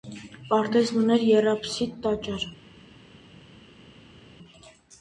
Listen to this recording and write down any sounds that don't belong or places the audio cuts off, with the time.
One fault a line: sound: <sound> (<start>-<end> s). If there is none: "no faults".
no faults